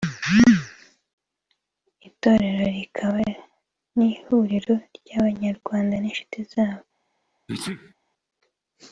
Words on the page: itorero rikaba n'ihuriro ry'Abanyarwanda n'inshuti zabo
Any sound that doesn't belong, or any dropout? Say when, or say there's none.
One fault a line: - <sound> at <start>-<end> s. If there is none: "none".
- sneeze at 7.5-7.9 s